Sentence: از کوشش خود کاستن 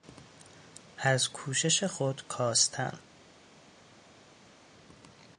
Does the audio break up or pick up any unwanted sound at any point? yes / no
no